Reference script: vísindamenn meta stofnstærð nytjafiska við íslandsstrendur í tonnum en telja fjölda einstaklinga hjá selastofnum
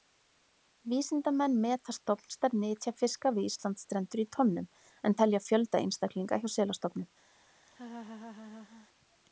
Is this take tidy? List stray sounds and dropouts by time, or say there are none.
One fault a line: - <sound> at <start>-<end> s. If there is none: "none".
- laugh at 7.7-8.9 s